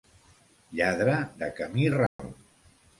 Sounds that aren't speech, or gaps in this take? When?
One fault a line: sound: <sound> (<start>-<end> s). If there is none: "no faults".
sound: dropout (2.1-2.2 s)